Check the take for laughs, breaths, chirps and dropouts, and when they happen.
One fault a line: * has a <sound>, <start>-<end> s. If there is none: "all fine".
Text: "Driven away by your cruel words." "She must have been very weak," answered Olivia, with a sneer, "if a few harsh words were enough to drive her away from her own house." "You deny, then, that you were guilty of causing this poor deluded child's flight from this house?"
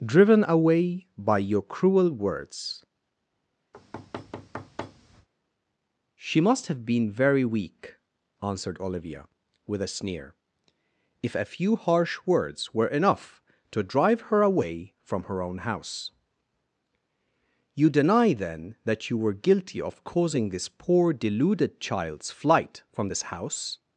* has a thud, 3.7-5.3 s